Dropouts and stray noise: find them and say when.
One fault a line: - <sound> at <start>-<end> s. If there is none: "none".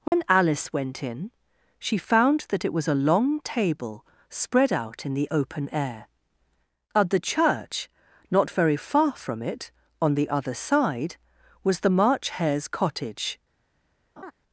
- dropout at 0.1-0.1 s
- laugh at 14.2-14.3 s